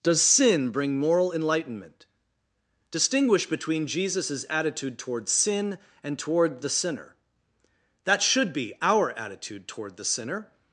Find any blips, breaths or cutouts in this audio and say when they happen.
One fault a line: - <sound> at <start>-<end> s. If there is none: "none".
none